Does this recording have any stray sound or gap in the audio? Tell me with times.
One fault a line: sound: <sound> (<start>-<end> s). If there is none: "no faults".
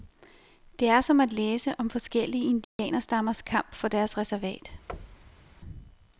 sound: dropout (2.6-2.8 s)
sound: thud (4.9-5.5 s)